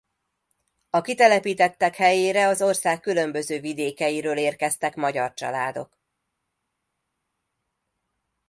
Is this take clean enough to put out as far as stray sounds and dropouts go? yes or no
yes